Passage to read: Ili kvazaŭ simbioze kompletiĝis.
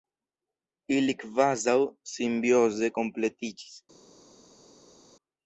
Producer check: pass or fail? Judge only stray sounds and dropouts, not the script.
pass